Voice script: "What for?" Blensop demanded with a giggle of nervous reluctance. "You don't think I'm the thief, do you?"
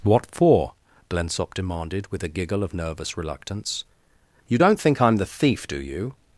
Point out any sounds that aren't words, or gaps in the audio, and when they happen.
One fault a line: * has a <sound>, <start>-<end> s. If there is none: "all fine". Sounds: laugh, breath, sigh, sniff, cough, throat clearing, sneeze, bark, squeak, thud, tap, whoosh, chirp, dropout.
all fine